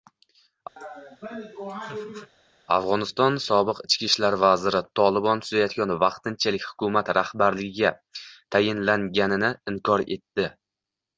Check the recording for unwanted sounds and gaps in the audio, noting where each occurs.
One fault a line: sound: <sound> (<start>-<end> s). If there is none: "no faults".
sound: laugh (0.8-2.3 s)